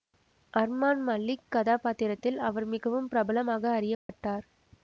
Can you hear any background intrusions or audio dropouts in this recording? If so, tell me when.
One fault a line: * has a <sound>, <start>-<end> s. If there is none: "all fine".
* has a dropout, 3.9-4.1 s